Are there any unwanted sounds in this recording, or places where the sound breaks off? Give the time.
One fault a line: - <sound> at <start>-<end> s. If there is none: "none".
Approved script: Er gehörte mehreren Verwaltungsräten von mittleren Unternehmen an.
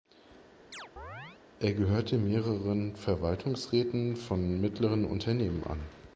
- chirp at 0.7-1.4 s